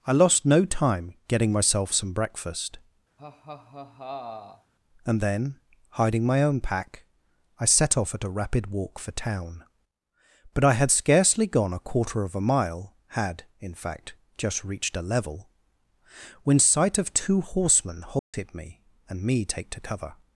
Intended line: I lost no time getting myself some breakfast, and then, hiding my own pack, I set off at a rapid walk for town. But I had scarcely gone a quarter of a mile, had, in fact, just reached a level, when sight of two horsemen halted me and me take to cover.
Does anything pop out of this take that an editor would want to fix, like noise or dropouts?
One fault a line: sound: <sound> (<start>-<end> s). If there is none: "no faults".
sound: laugh (3.2-4.7 s)
sound: dropout (18.2-18.3 s)